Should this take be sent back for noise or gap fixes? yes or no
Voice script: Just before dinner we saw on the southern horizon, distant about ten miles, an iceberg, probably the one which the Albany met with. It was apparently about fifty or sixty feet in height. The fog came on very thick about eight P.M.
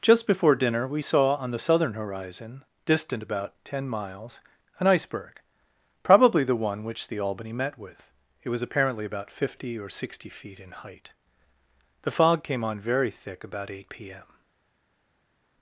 no